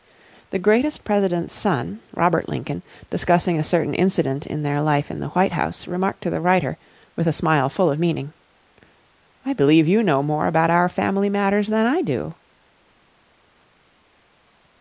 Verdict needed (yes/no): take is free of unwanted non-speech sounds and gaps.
yes